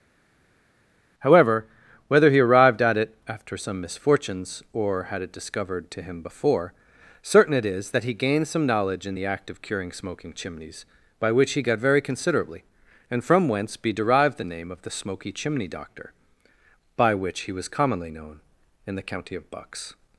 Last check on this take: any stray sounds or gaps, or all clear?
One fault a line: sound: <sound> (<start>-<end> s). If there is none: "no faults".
no faults